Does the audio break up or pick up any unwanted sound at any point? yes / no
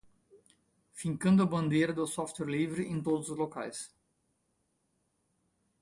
no